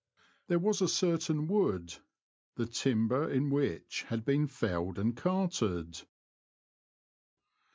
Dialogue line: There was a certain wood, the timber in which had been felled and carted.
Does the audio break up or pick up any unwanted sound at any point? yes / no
no